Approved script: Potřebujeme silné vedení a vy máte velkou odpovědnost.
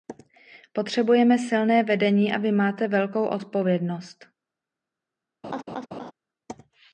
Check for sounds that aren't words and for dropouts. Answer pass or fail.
fail